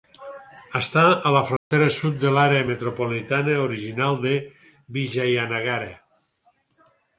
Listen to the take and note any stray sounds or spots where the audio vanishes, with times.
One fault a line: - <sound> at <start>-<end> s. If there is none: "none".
- dropout at 1.6-1.7 s